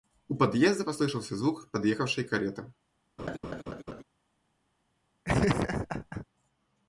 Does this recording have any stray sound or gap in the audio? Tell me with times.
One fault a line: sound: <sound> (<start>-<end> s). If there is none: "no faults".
sound: laugh (3.2-4.0 s)
sound: laugh (5.2-6.3 s)